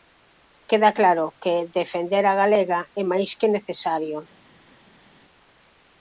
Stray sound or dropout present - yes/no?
no